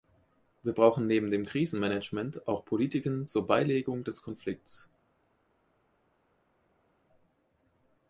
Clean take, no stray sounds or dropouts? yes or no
yes